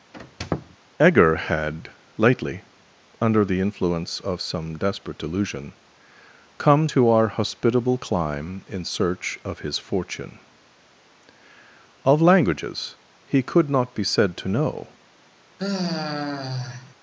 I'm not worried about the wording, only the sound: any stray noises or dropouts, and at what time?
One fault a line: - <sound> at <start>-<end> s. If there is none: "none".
- squeak at 0.1-0.8 s
- sigh at 15.6-16.9 s